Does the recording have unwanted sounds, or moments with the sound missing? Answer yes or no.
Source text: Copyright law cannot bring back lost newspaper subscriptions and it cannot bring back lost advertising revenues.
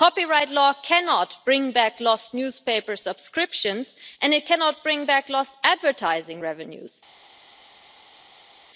no